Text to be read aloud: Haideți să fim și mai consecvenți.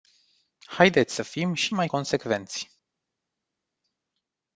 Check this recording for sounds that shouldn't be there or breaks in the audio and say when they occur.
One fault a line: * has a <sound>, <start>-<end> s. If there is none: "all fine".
all fine